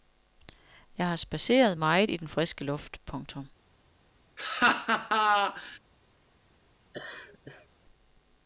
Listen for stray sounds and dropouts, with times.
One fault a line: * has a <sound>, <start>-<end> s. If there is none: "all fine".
* has a laugh, 4.4-5.8 s
* has a laugh, 6.9-7.7 s